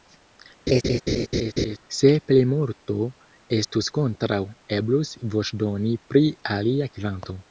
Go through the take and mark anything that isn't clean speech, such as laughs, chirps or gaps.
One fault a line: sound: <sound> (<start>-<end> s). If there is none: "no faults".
sound: laugh (0.7-1.8 s)